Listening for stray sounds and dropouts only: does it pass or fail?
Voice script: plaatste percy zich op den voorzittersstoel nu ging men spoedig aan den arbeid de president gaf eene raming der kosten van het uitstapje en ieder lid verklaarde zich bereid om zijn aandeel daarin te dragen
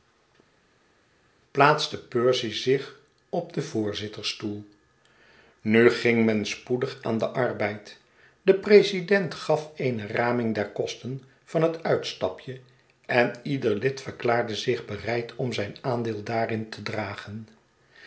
pass